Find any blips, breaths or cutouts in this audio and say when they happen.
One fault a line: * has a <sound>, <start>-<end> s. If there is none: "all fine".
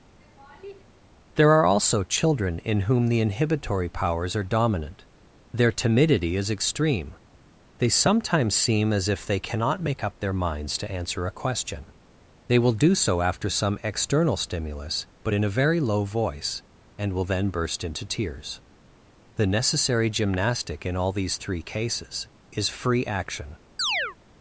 * has a laugh, 0.2-0.8 s
* has a chirp, 23.8-24.2 s